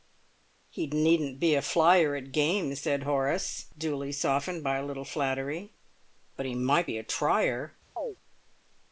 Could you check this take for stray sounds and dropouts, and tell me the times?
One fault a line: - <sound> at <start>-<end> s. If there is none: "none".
- chirp at 8.0-8.2 s